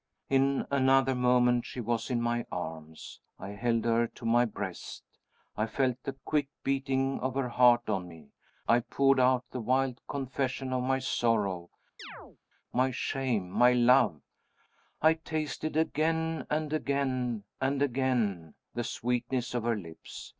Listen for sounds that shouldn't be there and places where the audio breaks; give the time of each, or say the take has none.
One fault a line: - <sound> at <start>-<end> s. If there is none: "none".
- chirp at 12.0-12.4 s